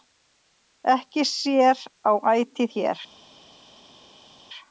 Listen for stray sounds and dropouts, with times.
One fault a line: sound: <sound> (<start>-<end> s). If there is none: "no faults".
no faults